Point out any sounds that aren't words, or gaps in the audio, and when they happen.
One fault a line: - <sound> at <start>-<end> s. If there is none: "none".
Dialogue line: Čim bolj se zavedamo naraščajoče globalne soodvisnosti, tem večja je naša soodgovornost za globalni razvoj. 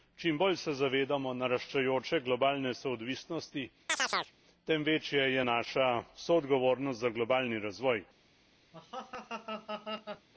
- chirp at 3.9-4.3 s
- laugh at 8.7-10.3 s